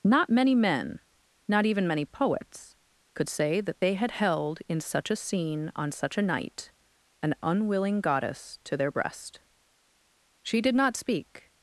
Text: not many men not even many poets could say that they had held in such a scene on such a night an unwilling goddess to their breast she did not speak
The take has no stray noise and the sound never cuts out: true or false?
true